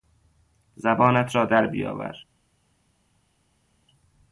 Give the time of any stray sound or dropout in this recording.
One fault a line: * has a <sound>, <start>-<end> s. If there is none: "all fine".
all fine